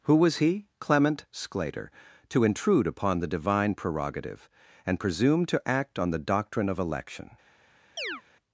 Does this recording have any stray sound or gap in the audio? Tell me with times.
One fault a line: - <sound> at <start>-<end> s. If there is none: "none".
- chirp at 8.0-8.2 s